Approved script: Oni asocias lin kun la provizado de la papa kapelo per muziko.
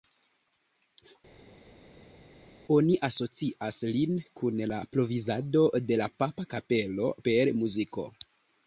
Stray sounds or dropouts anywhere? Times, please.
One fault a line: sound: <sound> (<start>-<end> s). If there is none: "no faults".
no faults